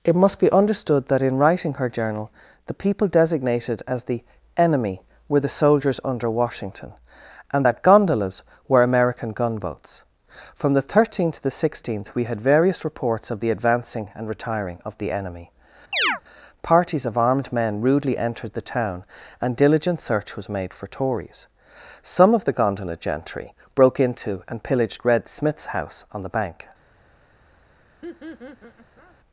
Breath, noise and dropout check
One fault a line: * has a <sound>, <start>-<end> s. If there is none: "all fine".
* has a chirp, 15.9-16.2 s
* has a laugh, 28.0-29.2 s